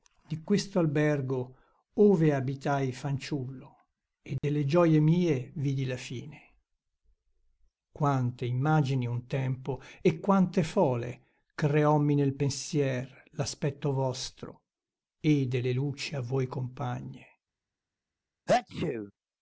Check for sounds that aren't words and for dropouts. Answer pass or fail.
fail